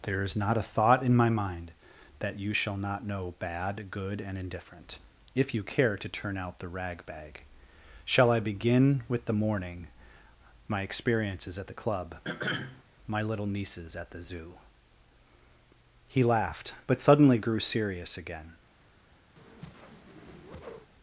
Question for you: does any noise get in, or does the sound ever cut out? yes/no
yes